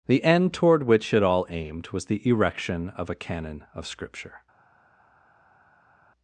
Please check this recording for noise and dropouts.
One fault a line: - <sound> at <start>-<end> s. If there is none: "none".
none